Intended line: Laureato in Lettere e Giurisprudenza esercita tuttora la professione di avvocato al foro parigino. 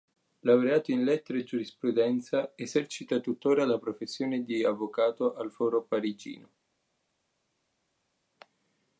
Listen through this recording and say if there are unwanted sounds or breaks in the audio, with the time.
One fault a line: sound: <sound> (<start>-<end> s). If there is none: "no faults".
no faults